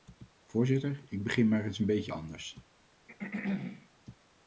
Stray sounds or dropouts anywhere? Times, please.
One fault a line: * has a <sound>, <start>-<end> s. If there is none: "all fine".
* has a throat clearing, 3.1-3.9 s